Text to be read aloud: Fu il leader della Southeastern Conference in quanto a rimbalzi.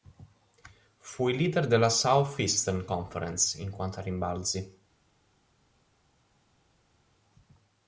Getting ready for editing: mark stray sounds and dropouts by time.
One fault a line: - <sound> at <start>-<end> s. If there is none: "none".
none